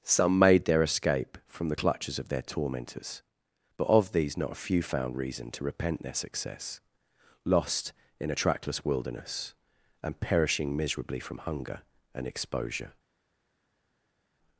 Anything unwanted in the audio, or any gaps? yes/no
no